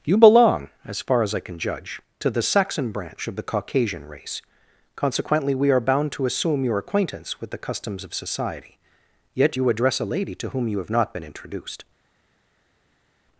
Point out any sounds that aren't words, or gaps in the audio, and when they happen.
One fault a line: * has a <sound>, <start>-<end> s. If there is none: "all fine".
all fine